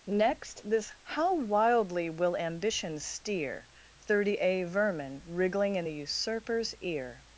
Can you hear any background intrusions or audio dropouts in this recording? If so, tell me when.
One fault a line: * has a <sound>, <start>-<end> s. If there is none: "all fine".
all fine